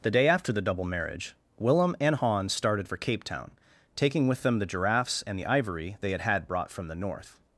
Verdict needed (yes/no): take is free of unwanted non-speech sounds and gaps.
yes